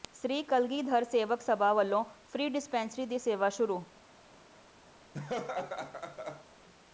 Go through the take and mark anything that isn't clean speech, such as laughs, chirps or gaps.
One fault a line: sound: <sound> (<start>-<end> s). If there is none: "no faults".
sound: laugh (5.1-6.5 s)